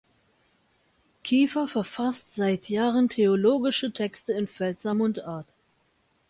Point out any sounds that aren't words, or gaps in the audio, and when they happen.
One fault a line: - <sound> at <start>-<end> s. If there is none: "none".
none